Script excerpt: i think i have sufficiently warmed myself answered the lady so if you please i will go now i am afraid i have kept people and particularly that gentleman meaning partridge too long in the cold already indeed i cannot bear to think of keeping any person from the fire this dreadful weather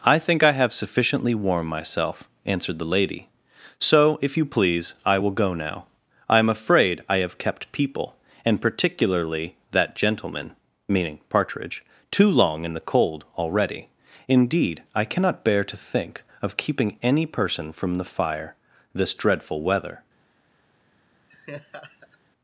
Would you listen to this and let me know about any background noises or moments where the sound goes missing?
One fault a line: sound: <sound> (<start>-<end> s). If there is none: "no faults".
sound: laugh (21.3-22.2 s)